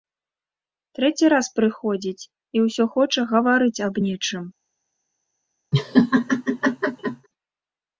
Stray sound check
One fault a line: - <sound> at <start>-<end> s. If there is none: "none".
- laugh at 5.7-7.3 s